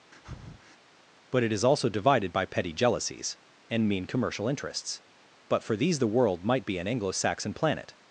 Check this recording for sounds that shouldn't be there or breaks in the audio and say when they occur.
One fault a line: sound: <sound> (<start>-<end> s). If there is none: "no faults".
sound: breath (0.1-0.8 s)